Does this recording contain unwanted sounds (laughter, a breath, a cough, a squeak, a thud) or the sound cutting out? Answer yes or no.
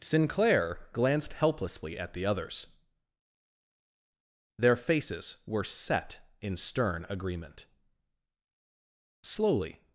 no